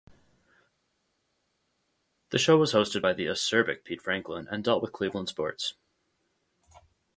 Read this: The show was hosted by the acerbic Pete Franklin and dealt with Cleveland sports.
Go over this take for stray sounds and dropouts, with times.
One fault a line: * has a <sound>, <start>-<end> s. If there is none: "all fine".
all fine